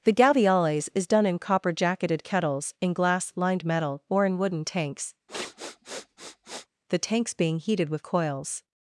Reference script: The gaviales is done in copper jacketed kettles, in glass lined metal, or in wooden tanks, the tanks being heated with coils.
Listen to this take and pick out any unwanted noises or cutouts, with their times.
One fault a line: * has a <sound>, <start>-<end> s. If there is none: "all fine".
* has a sniff, 5.3-6.7 s